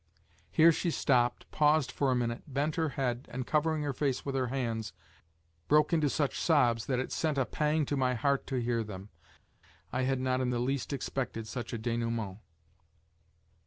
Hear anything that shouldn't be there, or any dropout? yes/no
no